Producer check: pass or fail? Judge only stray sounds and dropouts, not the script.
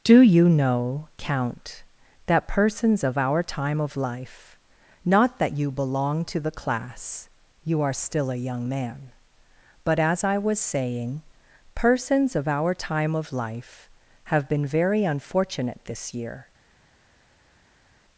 pass